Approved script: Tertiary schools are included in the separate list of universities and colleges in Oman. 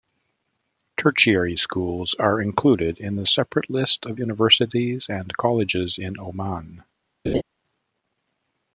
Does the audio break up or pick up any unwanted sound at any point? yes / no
yes